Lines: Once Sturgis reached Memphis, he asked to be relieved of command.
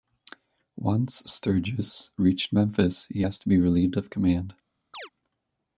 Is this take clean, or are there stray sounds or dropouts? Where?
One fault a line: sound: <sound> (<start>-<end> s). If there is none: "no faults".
sound: chirp (4.9-5.1 s)